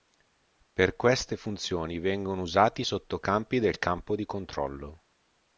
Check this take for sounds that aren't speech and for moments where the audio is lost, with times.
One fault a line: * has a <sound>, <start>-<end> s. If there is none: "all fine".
all fine